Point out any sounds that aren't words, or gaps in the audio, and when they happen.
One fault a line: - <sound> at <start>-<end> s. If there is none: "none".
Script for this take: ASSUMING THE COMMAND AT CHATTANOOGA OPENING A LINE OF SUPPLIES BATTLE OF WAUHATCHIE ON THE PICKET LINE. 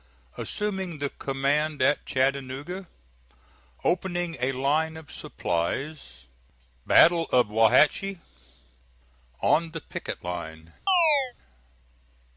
- chirp at 10.9-11.3 s